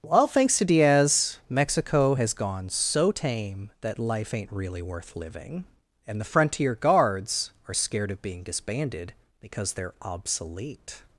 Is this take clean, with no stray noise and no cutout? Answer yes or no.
yes